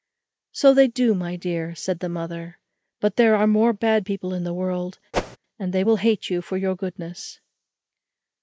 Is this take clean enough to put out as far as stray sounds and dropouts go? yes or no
no